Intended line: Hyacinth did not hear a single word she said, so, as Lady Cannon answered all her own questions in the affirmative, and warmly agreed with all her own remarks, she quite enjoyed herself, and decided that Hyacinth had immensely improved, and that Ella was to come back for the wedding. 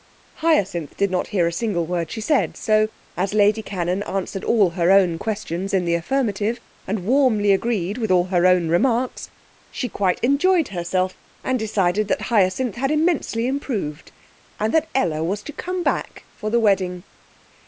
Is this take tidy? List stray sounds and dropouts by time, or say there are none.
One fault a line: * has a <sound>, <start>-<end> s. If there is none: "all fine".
all fine